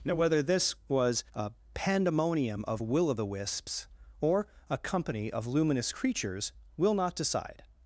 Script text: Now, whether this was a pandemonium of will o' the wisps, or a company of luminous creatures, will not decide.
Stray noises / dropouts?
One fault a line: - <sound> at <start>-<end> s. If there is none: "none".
none